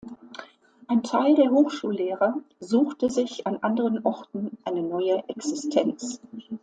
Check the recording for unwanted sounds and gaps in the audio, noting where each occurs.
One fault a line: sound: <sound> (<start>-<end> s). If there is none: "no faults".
no faults